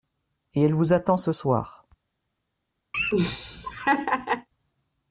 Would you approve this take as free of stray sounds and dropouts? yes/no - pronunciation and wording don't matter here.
no